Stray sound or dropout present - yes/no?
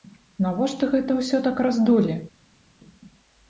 no